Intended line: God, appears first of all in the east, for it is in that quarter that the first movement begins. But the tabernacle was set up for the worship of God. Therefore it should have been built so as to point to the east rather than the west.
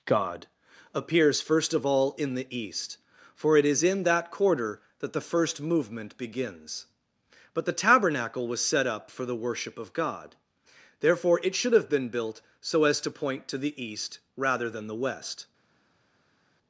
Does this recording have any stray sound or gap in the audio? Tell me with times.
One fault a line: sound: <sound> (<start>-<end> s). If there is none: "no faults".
no faults